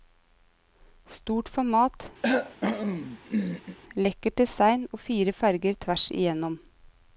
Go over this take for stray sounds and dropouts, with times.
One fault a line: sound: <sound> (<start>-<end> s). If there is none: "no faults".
sound: cough (2.2-3.8 s)